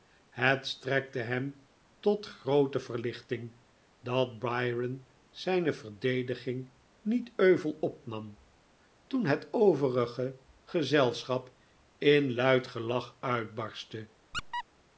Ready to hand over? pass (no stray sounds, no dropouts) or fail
fail